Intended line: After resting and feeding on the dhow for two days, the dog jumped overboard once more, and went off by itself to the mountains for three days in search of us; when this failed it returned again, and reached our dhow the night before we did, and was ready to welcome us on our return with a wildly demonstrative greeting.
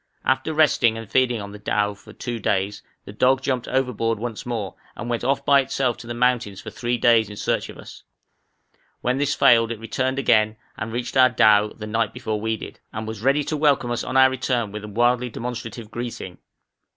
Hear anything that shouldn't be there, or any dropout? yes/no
no